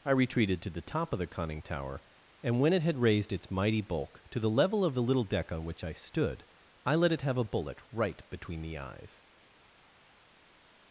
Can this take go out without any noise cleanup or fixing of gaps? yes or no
yes